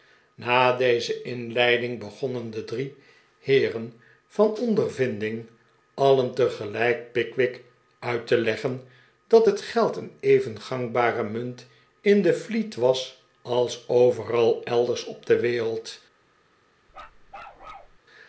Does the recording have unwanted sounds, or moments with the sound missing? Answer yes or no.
yes